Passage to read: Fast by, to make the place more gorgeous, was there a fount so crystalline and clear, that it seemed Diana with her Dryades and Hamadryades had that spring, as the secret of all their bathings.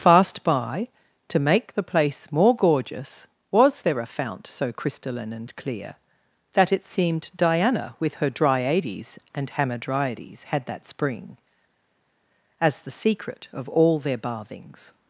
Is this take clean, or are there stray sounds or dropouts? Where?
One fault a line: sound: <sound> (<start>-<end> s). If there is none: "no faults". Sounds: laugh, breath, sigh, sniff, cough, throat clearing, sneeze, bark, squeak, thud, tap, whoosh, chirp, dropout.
no faults